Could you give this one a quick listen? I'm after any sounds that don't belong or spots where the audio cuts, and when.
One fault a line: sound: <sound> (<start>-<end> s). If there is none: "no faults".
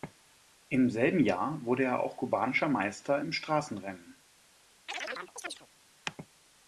sound: chirp (4.9-5.7 s)